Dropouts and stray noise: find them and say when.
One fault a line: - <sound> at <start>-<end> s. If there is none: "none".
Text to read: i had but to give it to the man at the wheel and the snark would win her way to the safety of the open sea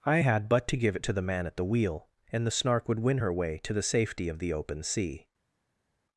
none